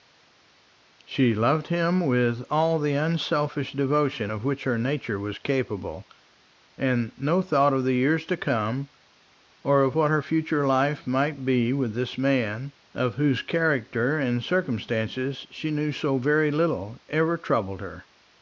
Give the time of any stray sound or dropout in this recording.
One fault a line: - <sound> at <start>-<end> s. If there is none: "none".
none